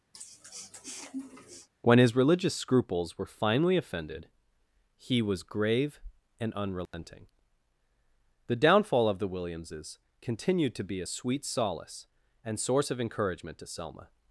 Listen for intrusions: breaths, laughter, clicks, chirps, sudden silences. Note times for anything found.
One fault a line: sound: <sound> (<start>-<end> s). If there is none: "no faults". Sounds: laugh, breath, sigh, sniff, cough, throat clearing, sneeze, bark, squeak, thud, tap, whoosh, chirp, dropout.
sound: sniff (0.1-1.7 s)
sound: dropout (6.9-6.9 s)